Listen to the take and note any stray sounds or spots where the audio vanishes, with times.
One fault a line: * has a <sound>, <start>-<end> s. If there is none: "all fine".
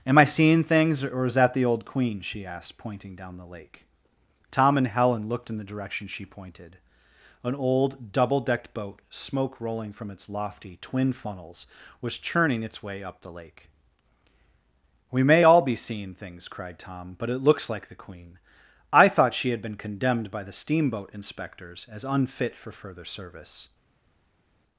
all fine